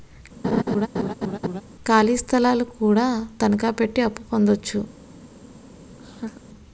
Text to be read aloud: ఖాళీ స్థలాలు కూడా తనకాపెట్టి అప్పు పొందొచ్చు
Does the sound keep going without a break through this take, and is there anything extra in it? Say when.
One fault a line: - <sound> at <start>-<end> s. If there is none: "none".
- laugh at 0.4-1.6 s
- laugh at 6.0-6.4 s